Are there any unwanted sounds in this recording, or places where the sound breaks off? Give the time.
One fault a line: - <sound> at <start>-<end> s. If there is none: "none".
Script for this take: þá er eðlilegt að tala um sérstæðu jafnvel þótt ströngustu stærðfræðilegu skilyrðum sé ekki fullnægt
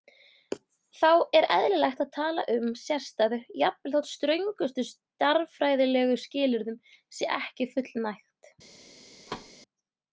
- thud at 9.3-9.5 s